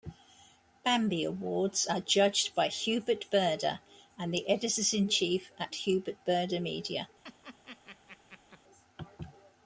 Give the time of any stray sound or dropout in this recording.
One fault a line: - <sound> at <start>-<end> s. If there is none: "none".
- laugh at 7.2-8.6 s